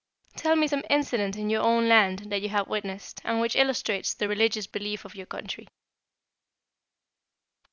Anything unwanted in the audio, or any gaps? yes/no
no